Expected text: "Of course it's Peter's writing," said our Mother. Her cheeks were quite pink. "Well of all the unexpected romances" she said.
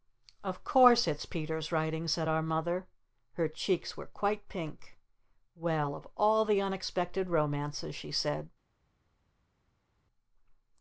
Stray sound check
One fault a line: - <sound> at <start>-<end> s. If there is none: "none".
none